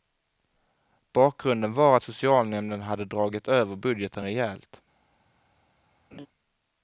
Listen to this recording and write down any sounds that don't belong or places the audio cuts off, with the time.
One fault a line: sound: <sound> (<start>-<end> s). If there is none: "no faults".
sound: laugh (6.1-6.3 s)